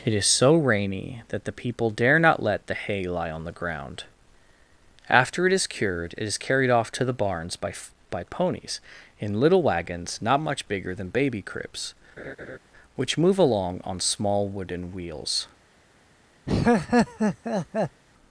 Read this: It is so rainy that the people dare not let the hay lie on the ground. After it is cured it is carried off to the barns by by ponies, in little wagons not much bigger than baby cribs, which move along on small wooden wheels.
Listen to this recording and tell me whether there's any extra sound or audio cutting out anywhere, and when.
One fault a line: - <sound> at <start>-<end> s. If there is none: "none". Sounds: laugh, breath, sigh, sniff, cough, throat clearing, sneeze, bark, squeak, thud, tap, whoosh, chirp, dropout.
- laugh at 12.2-12.6 s
- laugh at 16.5-18.0 s